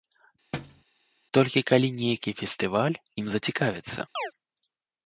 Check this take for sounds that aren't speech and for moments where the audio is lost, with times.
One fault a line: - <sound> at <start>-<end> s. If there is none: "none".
- thud at 0.5-0.8 s
- chirp at 4.2-4.3 s